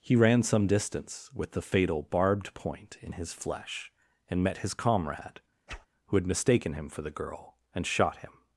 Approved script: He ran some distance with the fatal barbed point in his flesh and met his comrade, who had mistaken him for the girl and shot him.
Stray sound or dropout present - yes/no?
yes